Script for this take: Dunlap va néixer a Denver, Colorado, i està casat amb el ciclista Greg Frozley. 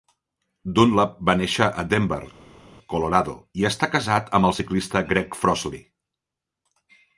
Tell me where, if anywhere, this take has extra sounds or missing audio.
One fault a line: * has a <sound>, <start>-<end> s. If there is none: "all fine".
all fine